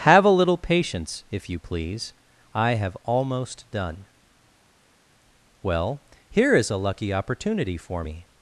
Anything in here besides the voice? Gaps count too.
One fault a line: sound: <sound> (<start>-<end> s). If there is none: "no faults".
no faults